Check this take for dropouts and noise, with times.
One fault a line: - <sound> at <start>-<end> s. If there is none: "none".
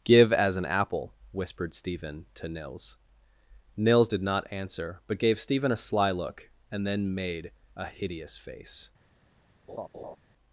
- laugh at 9.7-10.2 s